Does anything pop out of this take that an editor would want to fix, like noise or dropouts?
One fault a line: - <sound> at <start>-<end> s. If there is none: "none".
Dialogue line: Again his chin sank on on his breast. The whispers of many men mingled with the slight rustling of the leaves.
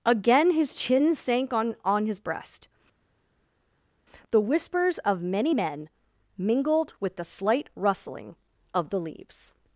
none